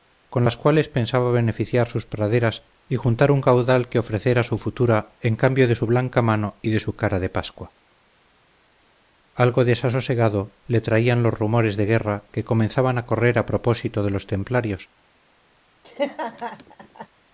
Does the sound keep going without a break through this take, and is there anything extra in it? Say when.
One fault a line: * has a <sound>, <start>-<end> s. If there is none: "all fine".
* has a laugh, 15.8-17.1 s